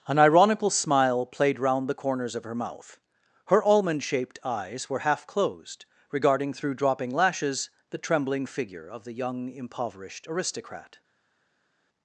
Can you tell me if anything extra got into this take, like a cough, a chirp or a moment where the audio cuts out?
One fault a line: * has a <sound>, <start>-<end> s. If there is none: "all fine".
all fine